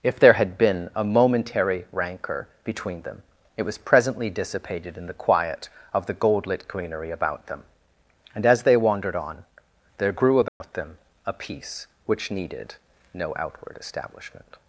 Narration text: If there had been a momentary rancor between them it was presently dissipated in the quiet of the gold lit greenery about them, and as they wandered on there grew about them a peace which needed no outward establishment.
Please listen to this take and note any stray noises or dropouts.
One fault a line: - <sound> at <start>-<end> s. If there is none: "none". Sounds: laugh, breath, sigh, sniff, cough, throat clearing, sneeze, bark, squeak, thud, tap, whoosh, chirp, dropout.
- dropout at 10.5-10.6 s